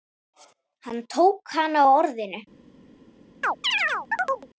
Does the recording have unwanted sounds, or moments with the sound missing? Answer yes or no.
yes